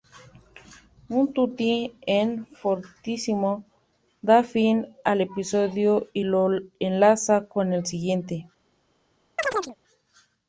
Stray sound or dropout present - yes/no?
yes